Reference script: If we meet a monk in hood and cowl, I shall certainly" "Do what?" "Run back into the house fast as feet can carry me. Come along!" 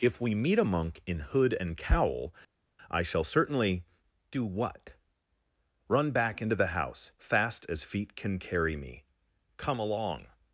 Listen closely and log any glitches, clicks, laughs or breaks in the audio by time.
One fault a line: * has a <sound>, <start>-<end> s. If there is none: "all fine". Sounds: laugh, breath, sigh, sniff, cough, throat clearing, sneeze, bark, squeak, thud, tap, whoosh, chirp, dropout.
all fine